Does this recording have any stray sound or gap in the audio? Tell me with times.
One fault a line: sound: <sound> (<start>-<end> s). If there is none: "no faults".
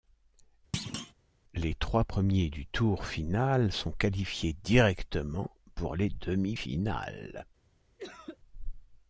sound: thud (0.7-1.1 s)
sound: cough (8.0-8.4 s)